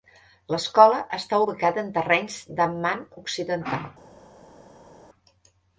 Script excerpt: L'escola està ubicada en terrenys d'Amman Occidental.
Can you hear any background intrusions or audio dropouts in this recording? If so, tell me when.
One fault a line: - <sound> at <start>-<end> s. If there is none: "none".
none